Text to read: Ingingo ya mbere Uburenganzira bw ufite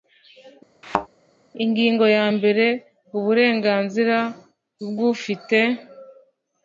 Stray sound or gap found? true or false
true